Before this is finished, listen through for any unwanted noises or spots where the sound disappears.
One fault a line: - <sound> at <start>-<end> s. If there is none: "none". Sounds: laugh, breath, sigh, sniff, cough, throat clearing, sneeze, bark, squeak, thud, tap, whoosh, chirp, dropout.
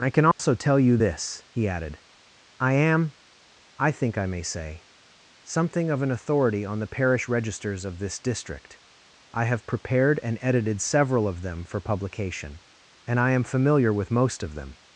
- dropout at 0.3-0.4 s